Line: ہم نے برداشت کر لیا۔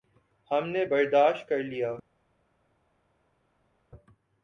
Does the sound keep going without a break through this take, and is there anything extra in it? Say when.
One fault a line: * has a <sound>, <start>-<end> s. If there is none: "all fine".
all fine